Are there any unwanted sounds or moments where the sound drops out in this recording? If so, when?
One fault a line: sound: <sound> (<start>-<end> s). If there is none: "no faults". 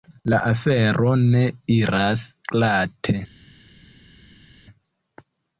no faults